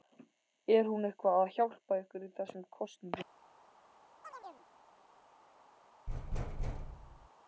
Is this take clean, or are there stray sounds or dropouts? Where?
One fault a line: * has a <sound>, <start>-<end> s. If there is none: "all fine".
* has a chirp, 4.2-4.7 s
* has a thud, 6.1-7.3 s